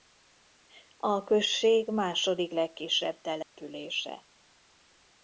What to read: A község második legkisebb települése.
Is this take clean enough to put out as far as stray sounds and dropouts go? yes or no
no